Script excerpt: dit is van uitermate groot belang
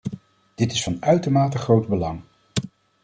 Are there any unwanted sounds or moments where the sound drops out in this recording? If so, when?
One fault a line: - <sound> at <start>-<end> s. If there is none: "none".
none